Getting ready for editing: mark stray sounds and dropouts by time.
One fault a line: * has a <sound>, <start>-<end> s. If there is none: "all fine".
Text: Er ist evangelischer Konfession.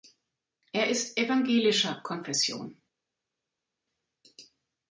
all fine